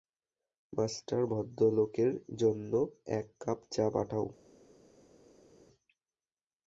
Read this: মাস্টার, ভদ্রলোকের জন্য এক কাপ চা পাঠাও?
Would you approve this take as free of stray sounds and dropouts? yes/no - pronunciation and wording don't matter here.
yes